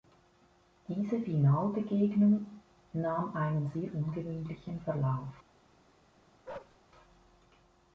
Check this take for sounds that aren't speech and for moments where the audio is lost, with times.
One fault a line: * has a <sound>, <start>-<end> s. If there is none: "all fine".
* has a bark, 6.5-6.8 s